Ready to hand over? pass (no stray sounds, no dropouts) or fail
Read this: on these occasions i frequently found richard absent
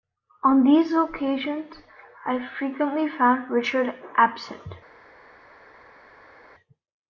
pass